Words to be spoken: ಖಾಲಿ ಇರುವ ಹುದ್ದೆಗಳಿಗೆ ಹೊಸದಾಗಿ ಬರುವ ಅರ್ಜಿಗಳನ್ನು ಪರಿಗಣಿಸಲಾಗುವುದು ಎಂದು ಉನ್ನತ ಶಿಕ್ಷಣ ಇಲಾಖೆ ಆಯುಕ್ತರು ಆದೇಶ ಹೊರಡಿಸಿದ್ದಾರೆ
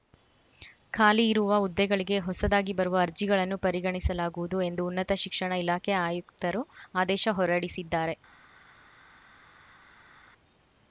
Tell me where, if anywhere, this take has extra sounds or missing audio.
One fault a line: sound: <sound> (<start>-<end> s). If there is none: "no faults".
no faults